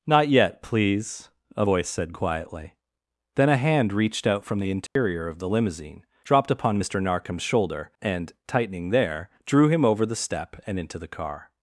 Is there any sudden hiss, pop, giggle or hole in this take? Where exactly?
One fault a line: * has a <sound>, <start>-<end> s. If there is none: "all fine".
* has a dropout, 4.9-5.0 s